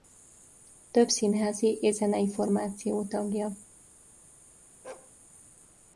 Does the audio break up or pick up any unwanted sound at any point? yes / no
yes